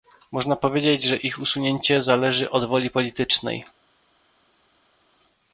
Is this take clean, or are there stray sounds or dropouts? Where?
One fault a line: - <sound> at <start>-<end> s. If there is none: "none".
none